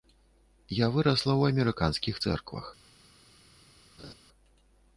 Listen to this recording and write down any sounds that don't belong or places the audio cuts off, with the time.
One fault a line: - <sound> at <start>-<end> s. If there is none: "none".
- laugh at 4.0-4.1 s